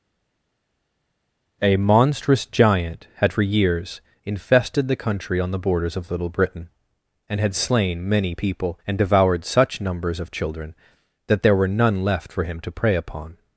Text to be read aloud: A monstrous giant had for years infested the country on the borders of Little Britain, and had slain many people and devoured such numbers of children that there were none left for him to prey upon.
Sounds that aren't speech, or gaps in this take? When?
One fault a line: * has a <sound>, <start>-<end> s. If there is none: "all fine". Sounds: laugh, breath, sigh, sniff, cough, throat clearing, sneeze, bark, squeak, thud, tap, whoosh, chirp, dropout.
all fine